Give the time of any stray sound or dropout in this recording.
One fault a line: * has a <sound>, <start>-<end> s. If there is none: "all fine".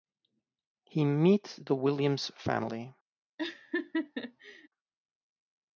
* has a laugh, 3.4-4.7 s